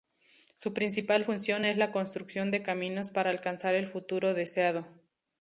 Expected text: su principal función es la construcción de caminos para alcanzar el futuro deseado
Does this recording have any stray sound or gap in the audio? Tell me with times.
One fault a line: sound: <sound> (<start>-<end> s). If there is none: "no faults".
no faults